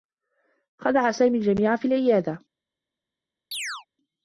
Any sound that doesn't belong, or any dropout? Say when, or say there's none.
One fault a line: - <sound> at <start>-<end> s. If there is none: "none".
- chirp at 3.5-3.9 s